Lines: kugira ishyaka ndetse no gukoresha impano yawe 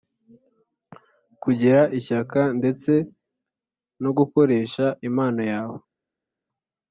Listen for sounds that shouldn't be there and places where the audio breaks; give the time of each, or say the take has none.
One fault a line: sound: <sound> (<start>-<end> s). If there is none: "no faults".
no faults